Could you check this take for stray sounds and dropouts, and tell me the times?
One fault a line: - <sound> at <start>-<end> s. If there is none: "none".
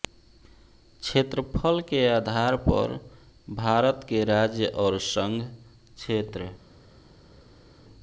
none